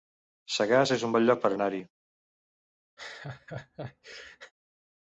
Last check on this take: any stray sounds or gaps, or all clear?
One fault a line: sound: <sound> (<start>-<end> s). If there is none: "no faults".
sound: laugh (3.0-4.5 s)